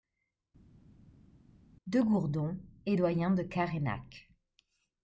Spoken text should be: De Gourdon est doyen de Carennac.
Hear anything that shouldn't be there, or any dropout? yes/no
no